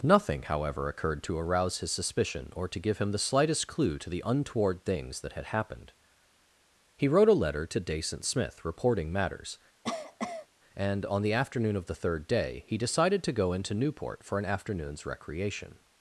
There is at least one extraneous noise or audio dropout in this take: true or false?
true